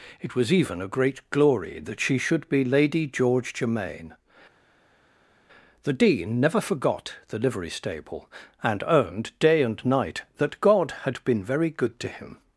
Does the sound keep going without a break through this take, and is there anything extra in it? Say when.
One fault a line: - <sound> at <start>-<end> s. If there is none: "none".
none